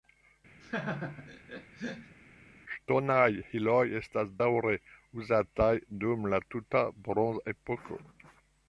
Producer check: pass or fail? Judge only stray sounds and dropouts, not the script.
fail